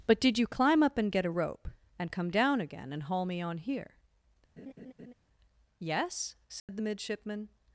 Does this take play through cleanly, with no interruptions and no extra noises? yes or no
no